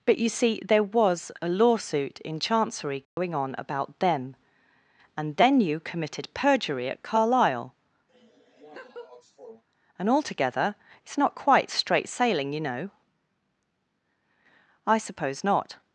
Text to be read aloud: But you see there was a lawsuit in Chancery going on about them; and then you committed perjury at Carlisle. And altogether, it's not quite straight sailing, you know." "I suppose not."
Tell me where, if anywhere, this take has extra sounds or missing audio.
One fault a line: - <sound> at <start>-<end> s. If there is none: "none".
- dropout at 3.0-3.2 s
- laugh at 8.1-9.6 s